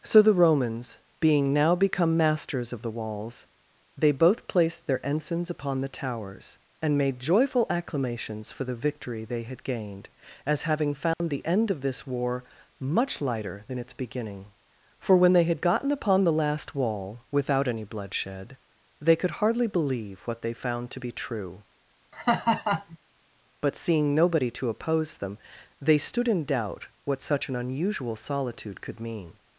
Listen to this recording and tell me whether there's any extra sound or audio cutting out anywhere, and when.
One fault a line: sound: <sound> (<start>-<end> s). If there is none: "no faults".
sound: dropout (11.1-11.2 s)
sound: laugh (22.1-23.0 s)